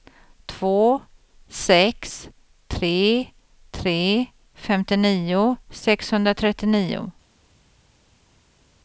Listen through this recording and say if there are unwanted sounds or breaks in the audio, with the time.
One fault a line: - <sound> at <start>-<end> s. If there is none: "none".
none